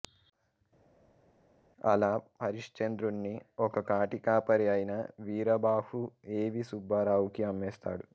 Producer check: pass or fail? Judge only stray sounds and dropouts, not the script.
pass